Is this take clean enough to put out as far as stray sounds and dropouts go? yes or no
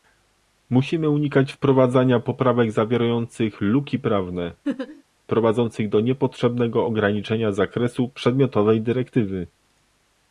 no